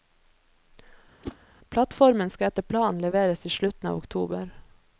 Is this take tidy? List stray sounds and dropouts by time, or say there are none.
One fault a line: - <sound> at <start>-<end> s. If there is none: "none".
- whoosh at 1.2-1.4 s